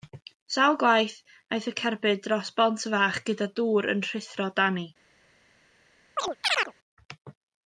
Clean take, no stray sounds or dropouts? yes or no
no